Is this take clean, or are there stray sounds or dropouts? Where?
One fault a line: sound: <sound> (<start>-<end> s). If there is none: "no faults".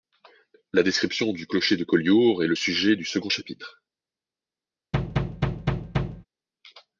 sound: thud (4.9-6.3 s)